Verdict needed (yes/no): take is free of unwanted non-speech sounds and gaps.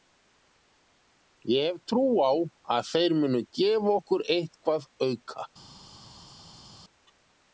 yes